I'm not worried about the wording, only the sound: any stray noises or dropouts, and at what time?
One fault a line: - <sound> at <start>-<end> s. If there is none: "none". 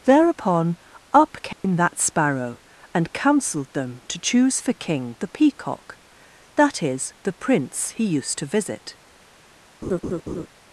- dropout at 1.5-1.6 s
- laugh at 9.8-10.5 s